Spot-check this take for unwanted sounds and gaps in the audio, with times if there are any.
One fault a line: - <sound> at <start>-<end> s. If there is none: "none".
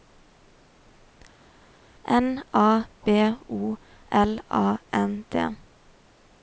none